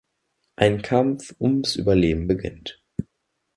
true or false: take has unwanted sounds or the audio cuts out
false